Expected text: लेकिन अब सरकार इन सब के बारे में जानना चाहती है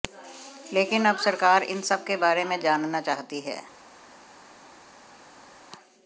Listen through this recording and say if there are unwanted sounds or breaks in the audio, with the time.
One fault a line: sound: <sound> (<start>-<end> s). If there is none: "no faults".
no faults